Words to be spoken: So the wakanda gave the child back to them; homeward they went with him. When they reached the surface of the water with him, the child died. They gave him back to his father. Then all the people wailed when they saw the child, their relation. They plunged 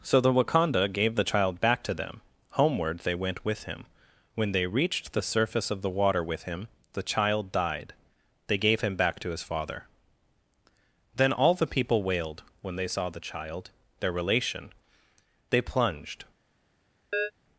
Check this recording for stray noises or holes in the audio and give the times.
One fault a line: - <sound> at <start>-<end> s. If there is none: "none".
- chirp at 17.1-17.3 s